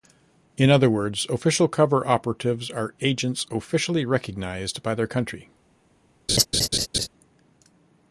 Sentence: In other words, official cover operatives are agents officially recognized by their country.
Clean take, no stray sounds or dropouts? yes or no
no